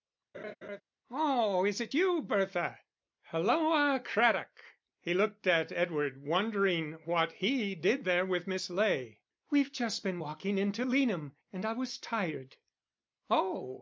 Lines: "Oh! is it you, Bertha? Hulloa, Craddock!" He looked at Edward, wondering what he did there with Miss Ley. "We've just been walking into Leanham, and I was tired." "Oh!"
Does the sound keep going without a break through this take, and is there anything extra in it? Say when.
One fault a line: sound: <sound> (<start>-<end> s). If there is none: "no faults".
sound: laugh (0.3-0.8 s)